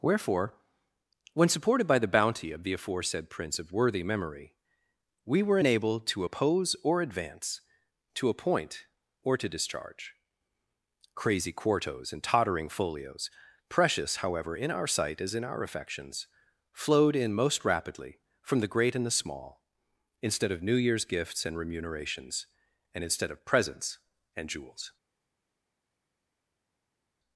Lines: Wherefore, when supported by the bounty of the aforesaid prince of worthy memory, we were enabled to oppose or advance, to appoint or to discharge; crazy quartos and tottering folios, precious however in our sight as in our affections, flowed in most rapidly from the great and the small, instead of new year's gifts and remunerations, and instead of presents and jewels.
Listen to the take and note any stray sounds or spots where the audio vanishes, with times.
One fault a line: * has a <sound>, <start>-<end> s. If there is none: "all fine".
all fine